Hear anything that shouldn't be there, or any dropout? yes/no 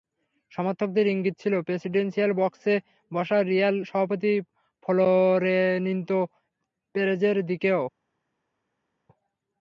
no